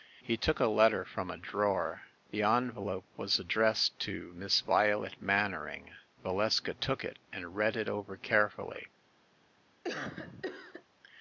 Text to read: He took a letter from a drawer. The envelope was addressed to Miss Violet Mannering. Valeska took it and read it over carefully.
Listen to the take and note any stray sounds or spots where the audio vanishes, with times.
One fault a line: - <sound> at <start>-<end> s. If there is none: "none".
- cough at 9.8-10.8 s